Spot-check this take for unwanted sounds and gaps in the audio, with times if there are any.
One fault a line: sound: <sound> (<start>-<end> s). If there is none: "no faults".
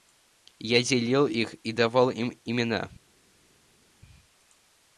no faults